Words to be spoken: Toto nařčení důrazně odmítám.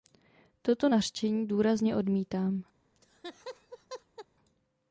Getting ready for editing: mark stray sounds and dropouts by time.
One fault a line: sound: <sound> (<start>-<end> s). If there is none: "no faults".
sound: laugh (2.9-4.3 s)